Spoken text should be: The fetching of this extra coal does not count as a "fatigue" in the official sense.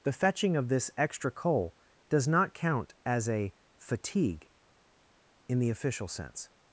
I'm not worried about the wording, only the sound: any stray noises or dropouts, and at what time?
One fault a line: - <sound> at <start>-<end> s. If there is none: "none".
none